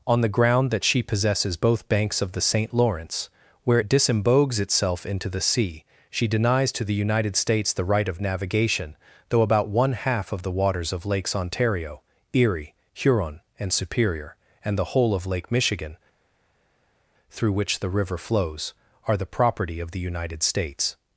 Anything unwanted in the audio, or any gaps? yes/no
no